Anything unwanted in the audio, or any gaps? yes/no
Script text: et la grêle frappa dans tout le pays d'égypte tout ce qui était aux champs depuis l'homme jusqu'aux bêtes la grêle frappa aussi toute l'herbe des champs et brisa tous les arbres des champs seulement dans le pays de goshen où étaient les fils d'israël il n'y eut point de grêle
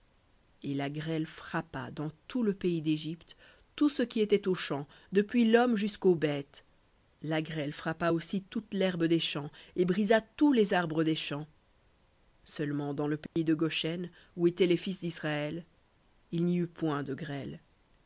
yes